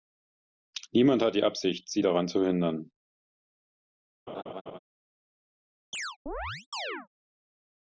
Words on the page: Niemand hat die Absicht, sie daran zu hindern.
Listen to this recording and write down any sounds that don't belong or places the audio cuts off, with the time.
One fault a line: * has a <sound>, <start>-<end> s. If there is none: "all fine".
* has a laugh, 4.3-4.8 s
* has a chirp, 5.9-7.1 s